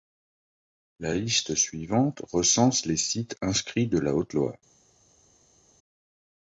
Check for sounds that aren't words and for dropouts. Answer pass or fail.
pass